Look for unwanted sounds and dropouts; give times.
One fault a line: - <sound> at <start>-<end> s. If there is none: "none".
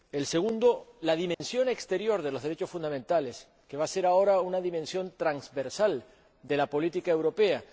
- dropout at 1.3-1.4 s